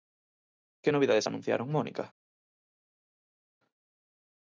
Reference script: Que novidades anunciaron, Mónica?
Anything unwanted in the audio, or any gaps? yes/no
no